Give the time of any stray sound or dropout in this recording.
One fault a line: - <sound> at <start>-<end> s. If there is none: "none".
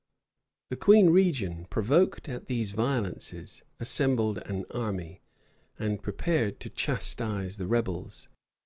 none